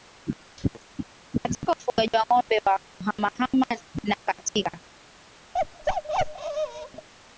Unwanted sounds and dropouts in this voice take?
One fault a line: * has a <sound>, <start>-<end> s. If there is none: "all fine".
* has a bark, 5.5-7.1 s